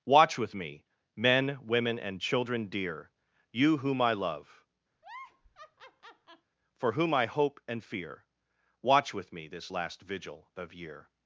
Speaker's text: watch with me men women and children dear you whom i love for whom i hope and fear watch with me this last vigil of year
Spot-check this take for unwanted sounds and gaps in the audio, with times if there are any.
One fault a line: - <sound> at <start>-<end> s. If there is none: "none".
- laugh at 4.9-6.5 s